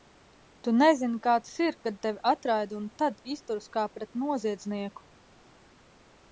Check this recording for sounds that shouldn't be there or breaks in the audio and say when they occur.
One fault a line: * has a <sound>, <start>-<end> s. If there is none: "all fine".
all fine